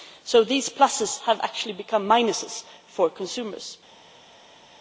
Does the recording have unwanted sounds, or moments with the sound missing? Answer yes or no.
no